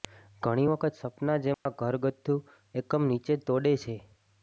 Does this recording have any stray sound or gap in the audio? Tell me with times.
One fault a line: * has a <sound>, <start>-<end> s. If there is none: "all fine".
* has a dropout, 1.5-1.7 s